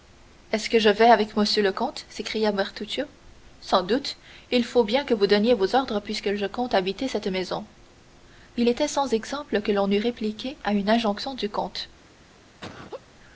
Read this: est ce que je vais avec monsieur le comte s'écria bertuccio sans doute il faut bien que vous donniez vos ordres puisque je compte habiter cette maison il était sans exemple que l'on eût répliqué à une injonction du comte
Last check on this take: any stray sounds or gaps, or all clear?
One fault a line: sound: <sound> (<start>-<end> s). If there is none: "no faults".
sound: laugh (12.6-13.1 s)